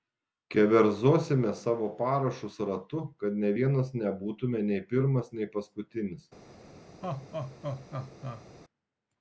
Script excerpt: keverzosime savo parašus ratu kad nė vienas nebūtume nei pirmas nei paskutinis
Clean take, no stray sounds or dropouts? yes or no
no